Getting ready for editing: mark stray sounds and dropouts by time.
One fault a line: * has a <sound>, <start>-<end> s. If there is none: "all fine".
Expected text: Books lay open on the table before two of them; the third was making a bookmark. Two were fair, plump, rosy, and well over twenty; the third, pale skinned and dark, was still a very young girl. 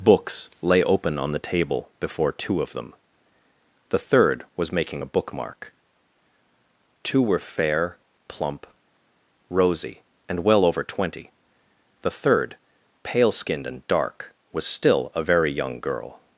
all fine